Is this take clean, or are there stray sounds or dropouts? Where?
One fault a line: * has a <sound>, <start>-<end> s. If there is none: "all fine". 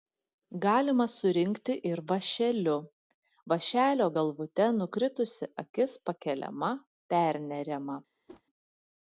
* has a whoosh, 8.3-8.4 s